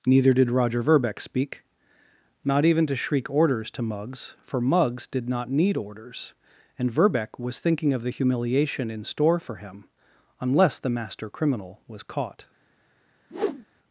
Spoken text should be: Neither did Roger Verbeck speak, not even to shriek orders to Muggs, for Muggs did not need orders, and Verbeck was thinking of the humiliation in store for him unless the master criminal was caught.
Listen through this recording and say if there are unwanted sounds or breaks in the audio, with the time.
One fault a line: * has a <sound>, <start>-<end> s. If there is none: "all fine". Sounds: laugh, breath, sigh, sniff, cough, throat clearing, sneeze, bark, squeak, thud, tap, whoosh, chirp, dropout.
* has a whoosh, 13.3-13.6 s